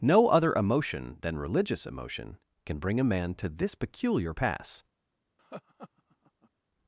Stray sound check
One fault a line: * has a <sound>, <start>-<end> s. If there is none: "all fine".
* has a laugh, 5.4-6.5 s